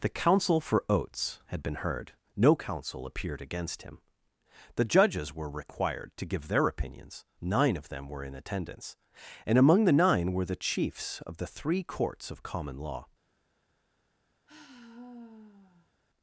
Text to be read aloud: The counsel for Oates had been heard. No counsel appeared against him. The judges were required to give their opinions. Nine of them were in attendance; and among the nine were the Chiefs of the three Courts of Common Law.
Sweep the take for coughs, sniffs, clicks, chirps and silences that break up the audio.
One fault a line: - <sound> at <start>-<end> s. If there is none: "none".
- sigh at 14.5-15.9 s